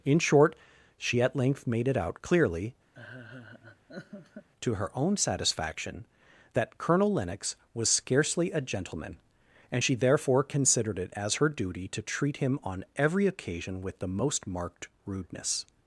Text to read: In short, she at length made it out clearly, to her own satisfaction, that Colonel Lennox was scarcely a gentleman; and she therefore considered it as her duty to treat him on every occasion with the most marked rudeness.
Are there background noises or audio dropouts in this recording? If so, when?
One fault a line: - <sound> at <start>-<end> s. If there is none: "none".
- laugh at 2.9-4.5 s